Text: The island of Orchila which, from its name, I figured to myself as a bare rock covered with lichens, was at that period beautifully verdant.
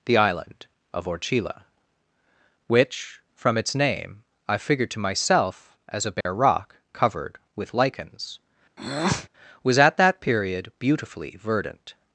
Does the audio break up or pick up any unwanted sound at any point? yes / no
yes